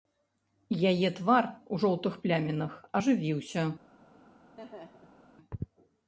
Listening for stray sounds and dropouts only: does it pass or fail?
fail